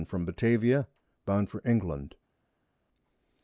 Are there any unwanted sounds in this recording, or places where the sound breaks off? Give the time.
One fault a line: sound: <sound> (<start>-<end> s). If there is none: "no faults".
no faults